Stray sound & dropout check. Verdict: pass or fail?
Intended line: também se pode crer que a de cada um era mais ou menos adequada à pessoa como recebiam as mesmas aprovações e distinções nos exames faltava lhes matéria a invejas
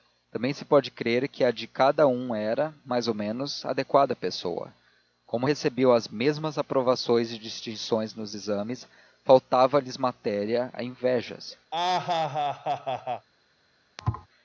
fail